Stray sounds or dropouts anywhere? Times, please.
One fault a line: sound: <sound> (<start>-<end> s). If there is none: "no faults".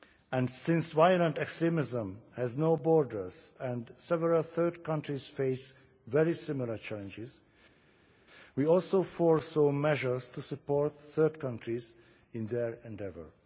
no faults